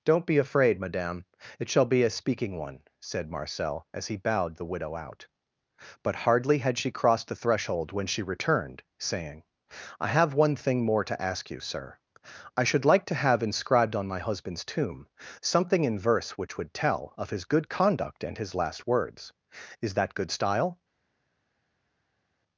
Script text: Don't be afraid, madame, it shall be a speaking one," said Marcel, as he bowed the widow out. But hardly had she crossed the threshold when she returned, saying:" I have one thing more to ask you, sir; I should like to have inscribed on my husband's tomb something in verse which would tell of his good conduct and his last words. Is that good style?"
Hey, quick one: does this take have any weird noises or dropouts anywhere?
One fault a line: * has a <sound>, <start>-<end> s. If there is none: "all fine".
all fine